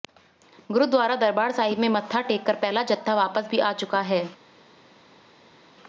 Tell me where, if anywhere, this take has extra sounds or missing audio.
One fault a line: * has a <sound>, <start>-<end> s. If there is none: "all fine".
all fine